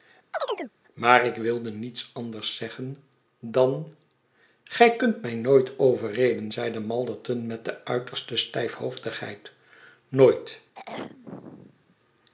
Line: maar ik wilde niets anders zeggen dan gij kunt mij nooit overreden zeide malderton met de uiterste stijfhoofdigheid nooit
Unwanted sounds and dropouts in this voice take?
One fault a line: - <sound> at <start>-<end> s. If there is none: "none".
- chirp at 0.3-0.7 s
- throat clearing at 10.7-12.0 s